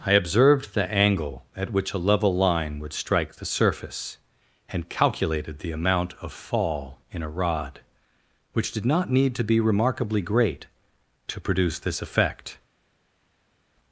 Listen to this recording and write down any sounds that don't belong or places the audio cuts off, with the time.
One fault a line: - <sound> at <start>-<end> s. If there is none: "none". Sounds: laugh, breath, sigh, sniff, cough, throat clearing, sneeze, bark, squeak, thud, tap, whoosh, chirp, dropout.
none